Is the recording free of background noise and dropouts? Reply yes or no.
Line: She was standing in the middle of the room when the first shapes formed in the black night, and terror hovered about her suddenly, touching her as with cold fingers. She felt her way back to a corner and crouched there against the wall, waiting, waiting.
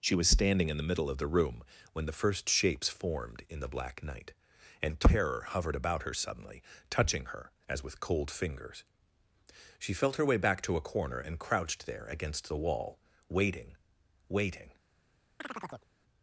no